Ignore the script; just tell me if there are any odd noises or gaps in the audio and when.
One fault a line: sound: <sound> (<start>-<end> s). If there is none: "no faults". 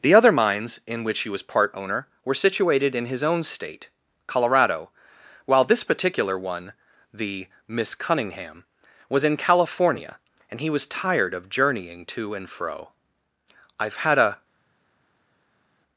no faults